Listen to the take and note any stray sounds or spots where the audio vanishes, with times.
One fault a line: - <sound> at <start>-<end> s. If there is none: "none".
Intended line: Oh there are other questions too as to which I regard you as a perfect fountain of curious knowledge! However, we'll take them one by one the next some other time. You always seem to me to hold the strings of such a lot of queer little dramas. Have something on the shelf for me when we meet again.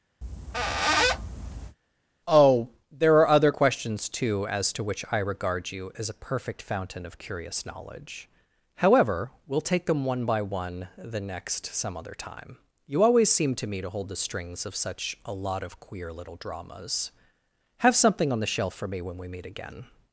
- squeak at 0.2-1.8 s